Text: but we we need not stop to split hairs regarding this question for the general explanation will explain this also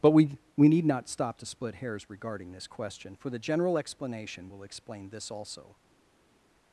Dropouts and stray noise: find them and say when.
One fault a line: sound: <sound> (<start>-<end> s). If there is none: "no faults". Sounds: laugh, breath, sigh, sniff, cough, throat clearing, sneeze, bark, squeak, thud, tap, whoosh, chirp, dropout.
no faults